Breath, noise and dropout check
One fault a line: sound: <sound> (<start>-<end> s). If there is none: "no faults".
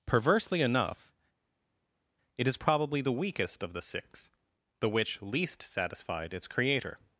no faults